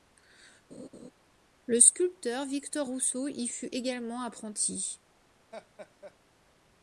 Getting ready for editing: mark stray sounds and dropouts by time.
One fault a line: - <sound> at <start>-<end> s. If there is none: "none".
- laugh at 0.7-1.1 s
- laugh at 5.5-6.2 s